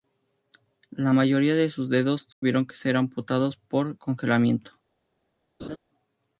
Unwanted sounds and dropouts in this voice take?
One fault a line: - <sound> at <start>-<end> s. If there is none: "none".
- dropout at 2.3-2.4 s
- laugh at 5.6-5.8 s